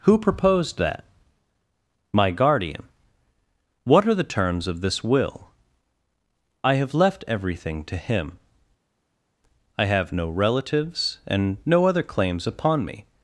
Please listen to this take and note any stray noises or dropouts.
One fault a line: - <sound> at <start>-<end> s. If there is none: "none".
none